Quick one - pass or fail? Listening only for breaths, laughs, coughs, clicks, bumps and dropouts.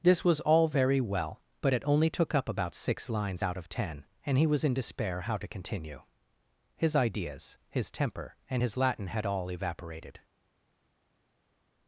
pass